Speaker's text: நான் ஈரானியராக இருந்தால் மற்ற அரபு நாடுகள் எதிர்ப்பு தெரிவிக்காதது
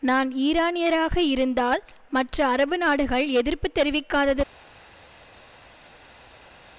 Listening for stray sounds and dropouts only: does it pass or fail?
pass